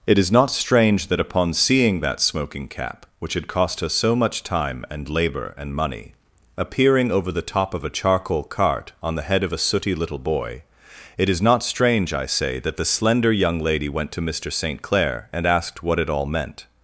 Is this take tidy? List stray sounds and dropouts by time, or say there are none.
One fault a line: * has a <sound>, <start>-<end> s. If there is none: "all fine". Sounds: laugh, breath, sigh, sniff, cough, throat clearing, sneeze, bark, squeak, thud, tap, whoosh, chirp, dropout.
all fine